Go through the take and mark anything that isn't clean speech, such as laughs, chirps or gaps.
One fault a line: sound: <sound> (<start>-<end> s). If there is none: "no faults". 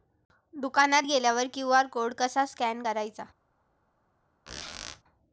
sound: squeak (4.5-5.0 s)